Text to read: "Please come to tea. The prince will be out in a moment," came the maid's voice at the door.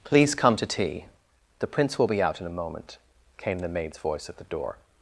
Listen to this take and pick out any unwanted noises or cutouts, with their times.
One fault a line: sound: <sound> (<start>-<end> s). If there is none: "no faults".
no faults